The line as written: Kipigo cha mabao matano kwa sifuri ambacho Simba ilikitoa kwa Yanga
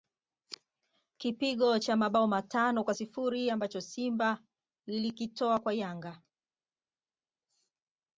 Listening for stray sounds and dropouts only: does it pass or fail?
pass